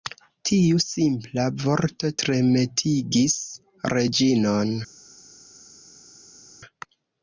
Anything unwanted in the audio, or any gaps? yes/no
no